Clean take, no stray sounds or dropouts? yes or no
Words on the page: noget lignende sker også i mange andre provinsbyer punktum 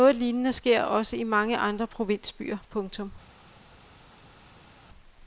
yes